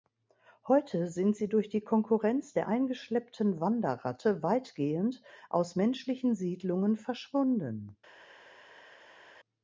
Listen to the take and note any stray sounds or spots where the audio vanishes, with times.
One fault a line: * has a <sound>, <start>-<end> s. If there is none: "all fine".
all fine